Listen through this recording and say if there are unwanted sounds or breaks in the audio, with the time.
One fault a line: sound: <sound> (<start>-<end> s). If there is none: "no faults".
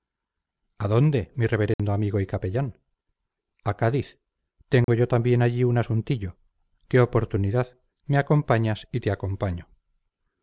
sound: dropout (1.7-1.8 s)
sound: dropout (4.8-4.9 s)